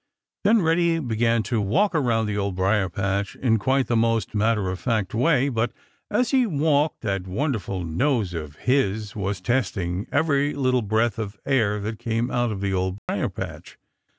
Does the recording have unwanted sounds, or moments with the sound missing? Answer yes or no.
yes